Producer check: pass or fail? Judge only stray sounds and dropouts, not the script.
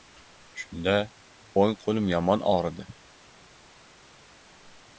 pass